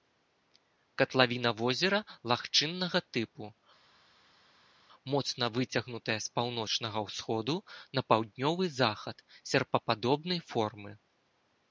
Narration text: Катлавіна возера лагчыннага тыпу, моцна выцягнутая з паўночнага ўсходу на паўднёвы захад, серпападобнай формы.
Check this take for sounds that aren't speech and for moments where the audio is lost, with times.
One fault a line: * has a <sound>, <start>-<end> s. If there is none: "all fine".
all fine